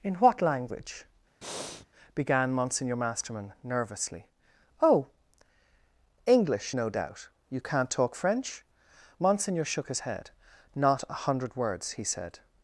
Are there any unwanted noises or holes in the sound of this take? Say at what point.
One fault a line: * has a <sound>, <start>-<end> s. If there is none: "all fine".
* has a breath, 1.4-1.9 s